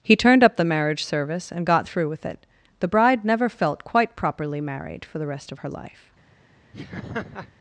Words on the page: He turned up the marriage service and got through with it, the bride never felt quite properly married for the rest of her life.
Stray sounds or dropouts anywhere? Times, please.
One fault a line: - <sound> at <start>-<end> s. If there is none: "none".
- laugh at 6.7-7.5 s